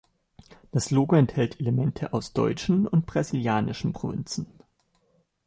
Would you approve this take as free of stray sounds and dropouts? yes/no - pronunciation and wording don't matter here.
yes